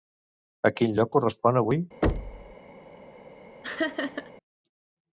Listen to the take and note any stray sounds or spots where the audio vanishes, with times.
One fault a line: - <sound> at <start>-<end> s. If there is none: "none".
- thud at 2.0-2.6 s
- laugh at 3.6-4.3 s